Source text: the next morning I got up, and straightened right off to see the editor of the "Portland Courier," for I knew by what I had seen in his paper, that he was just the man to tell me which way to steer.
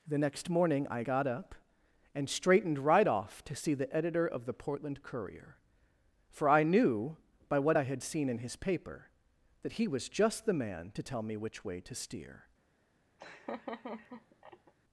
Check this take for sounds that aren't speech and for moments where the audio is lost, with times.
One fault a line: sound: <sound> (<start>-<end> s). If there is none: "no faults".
sound: laugh (13.2-14.7 s)